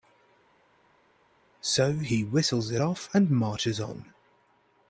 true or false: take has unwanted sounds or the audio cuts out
false